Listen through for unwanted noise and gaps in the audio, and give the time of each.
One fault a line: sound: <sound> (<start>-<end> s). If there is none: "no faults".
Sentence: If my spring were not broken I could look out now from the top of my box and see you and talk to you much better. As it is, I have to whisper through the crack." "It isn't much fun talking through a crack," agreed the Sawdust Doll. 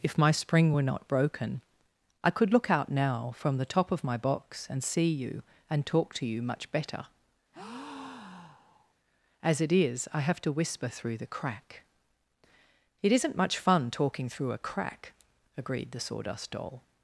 sound: breath (7.5-8.9 s)